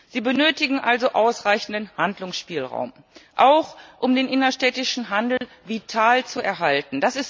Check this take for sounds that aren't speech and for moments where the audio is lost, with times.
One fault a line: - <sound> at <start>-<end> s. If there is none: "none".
- dropout at 5.4-5.4 s